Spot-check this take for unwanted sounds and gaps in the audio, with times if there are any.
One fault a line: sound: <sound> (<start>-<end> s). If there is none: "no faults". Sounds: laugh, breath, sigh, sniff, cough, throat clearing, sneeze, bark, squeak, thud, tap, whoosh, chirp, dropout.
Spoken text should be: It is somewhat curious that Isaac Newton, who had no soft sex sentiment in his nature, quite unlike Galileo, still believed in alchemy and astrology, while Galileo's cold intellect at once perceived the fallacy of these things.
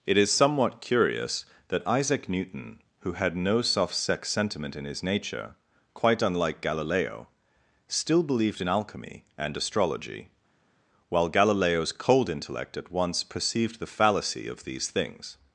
no faults